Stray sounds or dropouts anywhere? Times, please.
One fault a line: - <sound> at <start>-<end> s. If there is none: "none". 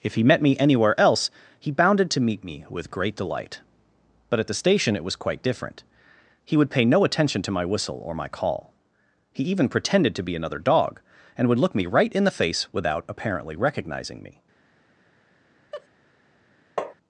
- laugh at 15.7-15.9 s
- tap at 16.8-16.9 s